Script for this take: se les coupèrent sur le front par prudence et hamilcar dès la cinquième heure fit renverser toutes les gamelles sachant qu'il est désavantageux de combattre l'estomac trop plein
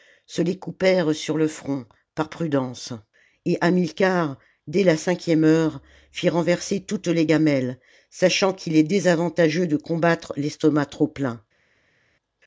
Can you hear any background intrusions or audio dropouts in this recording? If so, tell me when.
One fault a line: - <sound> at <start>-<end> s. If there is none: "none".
none